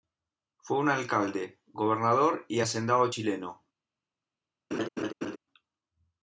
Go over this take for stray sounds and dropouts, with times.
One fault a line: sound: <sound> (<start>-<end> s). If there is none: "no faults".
sound: laugh (4.7-5.4 s)